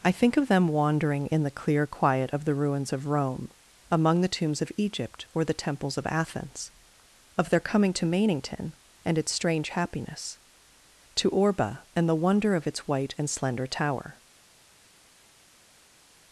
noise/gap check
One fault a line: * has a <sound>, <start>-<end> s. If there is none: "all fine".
all fine